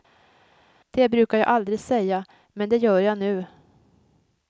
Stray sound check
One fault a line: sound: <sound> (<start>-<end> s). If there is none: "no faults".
no faults